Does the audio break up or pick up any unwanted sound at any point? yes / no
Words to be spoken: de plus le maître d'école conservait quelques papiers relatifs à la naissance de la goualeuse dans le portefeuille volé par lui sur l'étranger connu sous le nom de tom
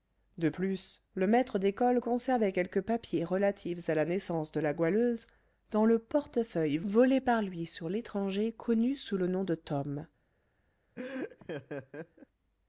yes